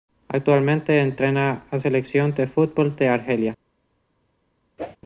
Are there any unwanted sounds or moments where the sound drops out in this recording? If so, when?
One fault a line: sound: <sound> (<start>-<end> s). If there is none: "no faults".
sound: whoosh (4.8-5.0 s)